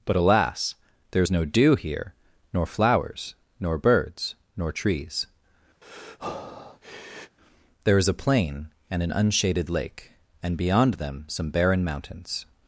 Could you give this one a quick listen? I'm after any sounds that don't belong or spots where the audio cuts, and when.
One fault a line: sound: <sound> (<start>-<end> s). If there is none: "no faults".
sound: breath (5.8-7.4 s)